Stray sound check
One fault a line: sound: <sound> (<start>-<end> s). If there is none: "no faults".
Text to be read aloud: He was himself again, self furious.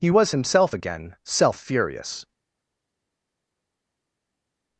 no faults